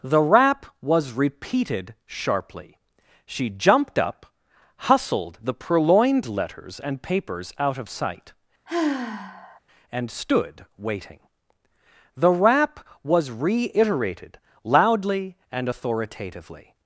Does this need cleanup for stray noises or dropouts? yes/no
yes